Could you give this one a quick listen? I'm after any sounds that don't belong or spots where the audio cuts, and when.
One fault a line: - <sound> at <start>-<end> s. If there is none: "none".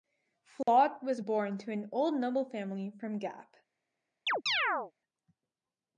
- dropout at 0.6-0.7 s
- chirp at 4.3-4.9 s